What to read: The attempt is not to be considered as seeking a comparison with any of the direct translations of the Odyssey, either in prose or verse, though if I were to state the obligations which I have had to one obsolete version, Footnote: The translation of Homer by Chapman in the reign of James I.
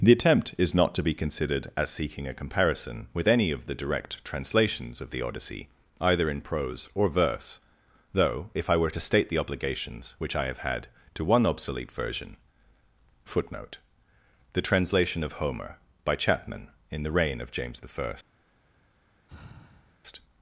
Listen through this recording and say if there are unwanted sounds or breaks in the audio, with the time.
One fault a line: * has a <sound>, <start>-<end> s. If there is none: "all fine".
* has a sigh, 19.3-20.0 s